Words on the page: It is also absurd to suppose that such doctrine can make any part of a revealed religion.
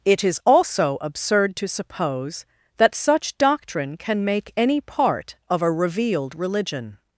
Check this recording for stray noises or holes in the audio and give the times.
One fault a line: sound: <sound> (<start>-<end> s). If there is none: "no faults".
no faults